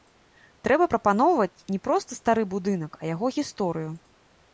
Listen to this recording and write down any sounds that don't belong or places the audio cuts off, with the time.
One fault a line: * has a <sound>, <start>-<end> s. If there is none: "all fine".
all fine